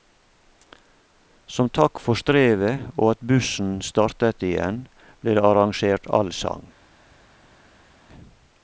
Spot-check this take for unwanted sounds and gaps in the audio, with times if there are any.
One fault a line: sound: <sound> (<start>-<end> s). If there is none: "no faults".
no faults